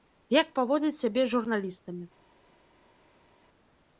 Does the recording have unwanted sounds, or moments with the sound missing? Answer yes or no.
no